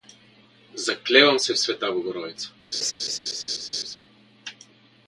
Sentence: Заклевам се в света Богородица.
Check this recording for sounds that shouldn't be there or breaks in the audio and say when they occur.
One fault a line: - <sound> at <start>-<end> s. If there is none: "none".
- laugh at 2.7-4.0 s